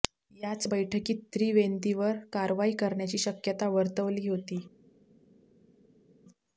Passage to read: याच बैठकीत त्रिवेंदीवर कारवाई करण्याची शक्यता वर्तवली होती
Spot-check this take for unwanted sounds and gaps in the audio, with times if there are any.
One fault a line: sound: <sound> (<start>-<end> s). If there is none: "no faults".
no faults